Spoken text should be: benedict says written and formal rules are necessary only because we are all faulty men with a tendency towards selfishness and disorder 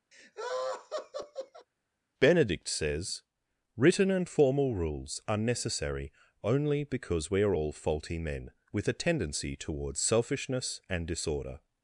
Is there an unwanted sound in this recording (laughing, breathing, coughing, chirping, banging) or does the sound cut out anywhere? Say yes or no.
yes